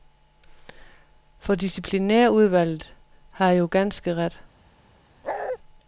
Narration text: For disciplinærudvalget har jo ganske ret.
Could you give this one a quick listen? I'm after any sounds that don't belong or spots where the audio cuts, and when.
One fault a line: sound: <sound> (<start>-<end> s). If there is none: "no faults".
sound: bark (5.2-5.6 s)